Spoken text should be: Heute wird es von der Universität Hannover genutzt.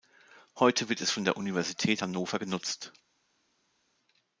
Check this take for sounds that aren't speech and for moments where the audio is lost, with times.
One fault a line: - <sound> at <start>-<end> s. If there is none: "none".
none